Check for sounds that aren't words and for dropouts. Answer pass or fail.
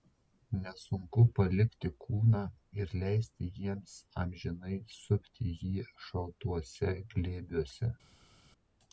pass